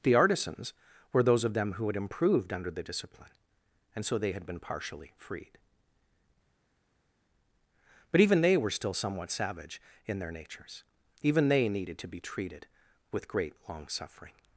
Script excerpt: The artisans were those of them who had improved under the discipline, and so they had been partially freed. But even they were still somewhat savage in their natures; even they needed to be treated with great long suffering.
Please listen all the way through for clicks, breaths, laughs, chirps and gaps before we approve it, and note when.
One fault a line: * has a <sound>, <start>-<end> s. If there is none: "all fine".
all fine